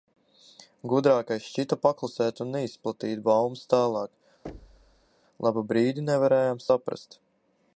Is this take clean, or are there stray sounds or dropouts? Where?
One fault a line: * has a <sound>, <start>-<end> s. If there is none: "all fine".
* has a thud, 4.4-5.1 s